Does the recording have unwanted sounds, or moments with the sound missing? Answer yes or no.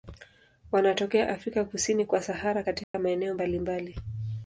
yes